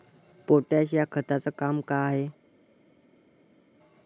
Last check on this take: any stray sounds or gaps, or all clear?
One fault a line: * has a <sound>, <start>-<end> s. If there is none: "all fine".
all fine